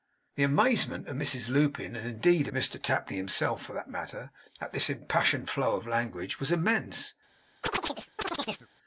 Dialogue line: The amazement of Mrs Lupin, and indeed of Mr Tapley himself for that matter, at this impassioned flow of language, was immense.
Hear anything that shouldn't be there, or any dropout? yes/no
yes